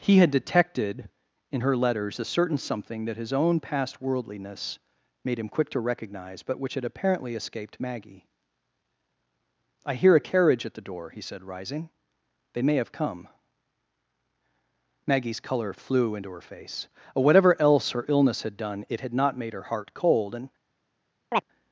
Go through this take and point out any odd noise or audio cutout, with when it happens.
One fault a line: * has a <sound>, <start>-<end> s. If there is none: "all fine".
* has a chirp, 21.3-21.4 s